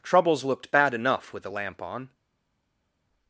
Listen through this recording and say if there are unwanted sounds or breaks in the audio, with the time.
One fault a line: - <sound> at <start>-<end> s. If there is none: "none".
none